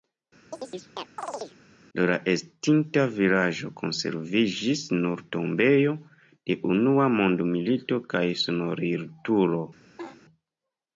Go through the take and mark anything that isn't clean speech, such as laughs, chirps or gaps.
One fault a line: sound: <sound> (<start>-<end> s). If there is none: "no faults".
sound: chirp (0.5-1.6 s)
sound: laugh (10.0-10.2 s)